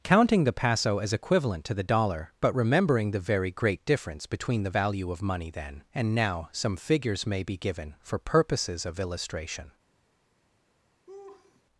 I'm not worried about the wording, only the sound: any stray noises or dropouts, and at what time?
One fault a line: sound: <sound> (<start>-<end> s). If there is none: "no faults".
sound: laugh (11.1-11.6 s)